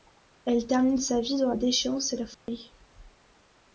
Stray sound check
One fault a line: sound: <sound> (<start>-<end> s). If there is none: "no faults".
sound: dropout (2.3-2.5 s)